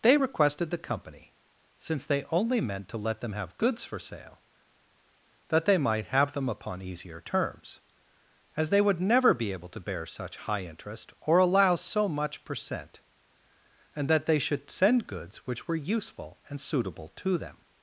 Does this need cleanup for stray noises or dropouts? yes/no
no